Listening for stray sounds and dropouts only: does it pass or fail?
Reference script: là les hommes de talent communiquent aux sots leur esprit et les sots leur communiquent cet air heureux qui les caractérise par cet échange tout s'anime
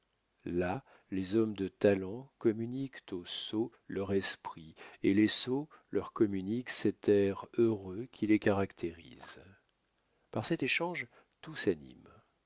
pass